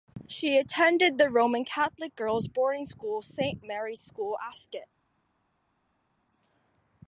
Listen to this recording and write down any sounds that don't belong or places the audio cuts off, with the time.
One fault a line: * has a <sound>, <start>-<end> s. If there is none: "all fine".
all fine